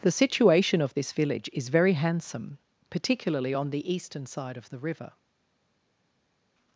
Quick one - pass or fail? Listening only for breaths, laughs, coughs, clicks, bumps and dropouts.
pass